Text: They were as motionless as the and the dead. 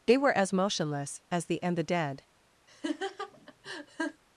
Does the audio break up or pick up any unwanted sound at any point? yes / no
yes